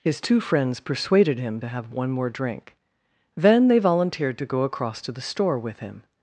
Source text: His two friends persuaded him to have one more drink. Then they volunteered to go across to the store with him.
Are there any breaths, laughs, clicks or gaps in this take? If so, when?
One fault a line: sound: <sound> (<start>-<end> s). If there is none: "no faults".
no faults